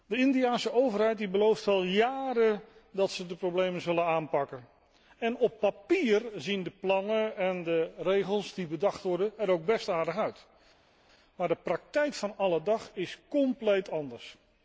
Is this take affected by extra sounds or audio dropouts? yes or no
no